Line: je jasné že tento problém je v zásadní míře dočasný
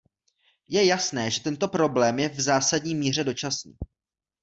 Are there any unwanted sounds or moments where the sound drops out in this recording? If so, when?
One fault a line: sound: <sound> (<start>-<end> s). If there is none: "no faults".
no faults